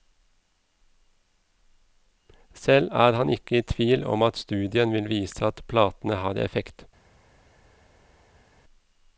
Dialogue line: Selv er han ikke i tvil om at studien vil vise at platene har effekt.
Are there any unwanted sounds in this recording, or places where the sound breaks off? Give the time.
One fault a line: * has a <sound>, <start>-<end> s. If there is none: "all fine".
all fine